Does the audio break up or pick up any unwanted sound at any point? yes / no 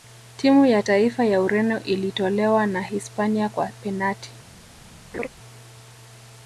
yes